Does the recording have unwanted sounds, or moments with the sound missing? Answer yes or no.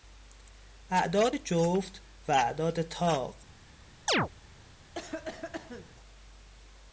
yes